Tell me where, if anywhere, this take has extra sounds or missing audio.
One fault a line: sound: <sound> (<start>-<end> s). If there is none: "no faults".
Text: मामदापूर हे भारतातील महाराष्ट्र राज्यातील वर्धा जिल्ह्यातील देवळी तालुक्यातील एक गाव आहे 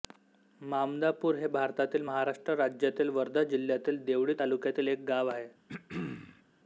sound: throat clearing (5.7-6.4 s)